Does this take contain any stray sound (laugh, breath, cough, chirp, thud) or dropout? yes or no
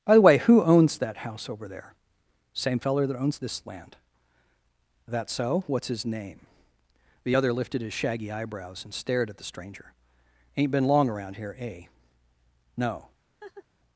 yes